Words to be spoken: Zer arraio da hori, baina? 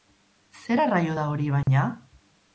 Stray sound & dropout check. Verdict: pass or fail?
fail